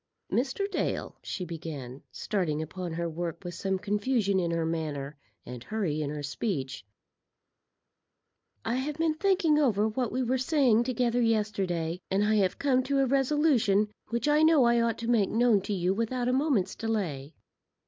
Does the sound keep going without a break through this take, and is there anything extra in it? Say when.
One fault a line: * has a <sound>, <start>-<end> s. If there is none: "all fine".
all fine